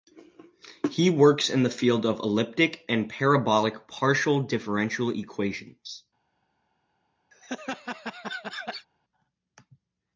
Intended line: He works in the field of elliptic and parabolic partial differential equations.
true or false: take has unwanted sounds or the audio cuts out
true